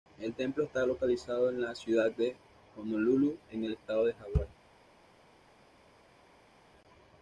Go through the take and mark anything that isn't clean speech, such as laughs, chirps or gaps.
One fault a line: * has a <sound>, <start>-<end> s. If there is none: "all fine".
all fine